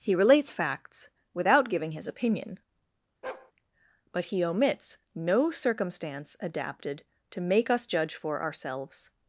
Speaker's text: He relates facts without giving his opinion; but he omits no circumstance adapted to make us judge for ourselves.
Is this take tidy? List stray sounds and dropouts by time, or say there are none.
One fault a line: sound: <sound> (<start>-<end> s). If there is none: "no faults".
sound: bark (3.2-3.5 s)